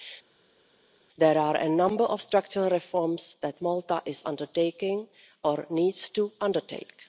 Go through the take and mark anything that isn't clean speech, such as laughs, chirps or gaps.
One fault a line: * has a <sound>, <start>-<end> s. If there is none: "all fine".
all fine